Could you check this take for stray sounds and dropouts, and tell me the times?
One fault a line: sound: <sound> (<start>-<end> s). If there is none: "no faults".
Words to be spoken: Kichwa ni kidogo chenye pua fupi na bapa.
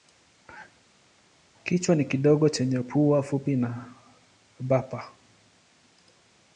no faults